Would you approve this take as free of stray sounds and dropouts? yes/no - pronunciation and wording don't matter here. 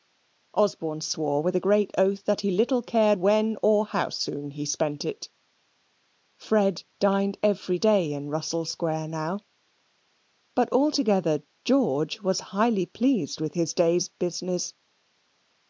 yes